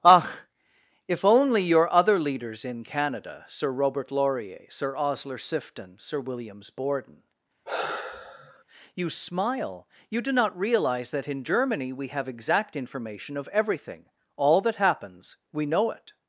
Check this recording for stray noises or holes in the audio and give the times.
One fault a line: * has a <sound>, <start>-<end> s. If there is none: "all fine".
* has a sigh, 7.7-8.6 s